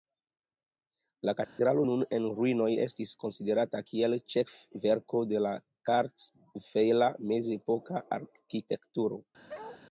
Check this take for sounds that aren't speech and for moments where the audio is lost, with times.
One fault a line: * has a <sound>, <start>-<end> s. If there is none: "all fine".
* has a dropout, 1.4-1.6 s
* has a bark, 9.5-9.8 s